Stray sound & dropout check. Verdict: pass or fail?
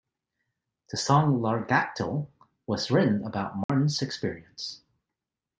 fail